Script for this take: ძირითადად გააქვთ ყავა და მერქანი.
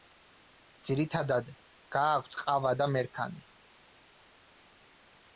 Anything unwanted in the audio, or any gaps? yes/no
no